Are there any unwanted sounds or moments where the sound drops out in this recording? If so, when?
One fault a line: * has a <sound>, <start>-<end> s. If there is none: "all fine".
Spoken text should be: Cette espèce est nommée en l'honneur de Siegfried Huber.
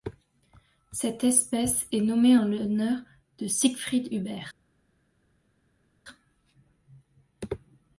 all fine